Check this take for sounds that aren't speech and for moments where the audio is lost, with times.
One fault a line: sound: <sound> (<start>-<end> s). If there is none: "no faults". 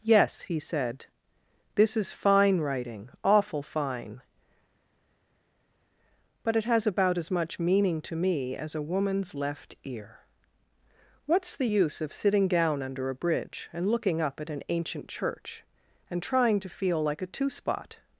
no faults